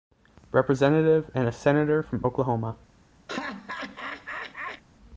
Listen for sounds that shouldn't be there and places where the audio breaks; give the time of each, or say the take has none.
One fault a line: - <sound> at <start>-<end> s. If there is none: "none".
- laugh at 3.3-4.8 s